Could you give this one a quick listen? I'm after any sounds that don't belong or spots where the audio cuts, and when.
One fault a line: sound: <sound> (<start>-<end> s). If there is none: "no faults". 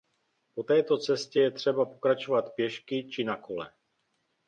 no faults